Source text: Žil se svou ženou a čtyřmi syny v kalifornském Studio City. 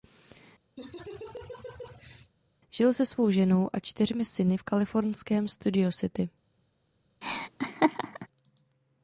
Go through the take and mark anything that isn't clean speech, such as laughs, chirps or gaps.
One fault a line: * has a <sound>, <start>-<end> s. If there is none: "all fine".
* has a laugh, 0.8-2.3 s
* has a laugh, 7.2-8.3 s